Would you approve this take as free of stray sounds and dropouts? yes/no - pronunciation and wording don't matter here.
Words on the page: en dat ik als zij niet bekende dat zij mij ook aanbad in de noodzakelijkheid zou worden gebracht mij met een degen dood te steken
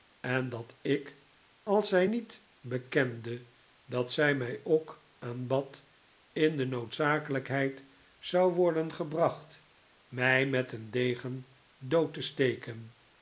yes